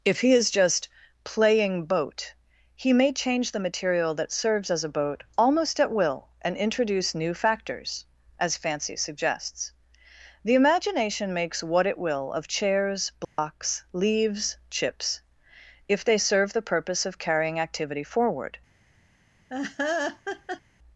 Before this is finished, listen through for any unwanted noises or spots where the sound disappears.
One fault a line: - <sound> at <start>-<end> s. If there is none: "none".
- dropout at 13.2-13.4 s
- laugh at 19.5-20.6 s